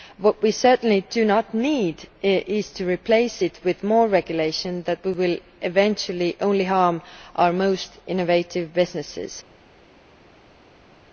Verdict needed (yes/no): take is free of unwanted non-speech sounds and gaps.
yes